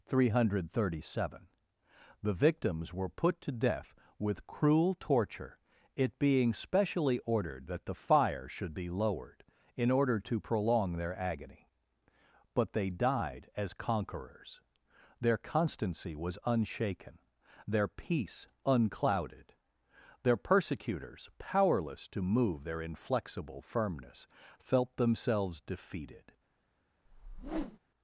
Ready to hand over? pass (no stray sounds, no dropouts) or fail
fail